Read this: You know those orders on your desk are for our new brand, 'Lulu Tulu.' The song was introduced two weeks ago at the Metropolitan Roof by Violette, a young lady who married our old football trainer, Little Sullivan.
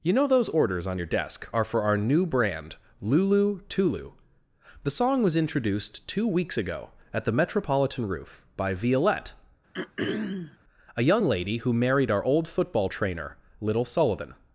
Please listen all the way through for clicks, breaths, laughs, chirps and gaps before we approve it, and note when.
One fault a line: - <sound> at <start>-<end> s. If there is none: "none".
- throat clearing at 9.7-10.6 s